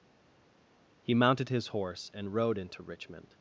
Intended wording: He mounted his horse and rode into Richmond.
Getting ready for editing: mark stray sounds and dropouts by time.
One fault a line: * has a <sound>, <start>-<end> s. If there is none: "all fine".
all fine